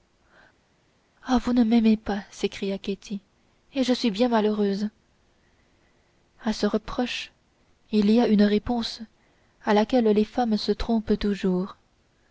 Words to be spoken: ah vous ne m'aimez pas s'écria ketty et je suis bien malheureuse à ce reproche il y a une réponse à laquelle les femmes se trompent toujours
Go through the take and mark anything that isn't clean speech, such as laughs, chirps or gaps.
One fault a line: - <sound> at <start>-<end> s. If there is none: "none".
none